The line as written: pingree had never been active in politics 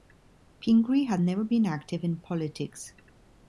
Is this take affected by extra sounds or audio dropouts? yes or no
no